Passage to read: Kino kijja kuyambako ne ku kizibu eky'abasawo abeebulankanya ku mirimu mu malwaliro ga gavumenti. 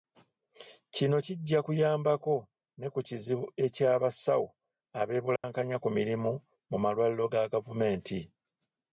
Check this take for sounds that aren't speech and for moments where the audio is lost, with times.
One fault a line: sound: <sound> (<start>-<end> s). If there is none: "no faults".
sound: dropout (5.4-5.4 s)